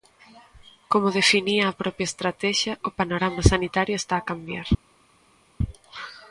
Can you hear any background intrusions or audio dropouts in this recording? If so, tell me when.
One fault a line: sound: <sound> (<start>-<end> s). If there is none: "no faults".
no faults